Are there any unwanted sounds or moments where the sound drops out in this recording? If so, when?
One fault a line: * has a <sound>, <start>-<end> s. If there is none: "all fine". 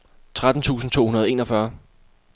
all fine